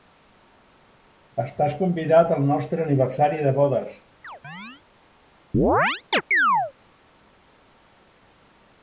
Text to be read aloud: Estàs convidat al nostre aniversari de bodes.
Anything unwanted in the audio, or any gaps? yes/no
yes